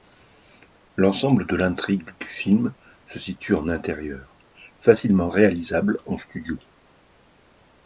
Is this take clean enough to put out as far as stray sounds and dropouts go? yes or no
yes